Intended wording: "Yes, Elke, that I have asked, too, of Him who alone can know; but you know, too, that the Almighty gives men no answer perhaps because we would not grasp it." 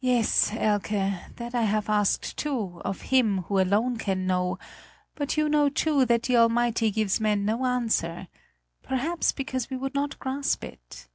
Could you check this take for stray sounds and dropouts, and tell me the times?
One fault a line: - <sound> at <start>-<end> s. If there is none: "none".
none